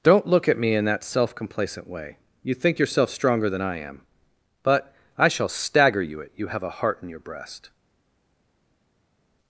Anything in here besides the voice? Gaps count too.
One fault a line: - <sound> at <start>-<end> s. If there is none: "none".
none